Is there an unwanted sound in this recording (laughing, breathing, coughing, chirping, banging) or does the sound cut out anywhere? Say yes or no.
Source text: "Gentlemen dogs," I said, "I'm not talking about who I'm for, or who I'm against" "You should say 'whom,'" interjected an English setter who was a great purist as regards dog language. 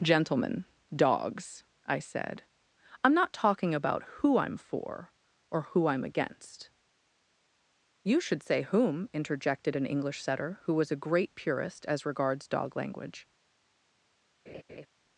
yes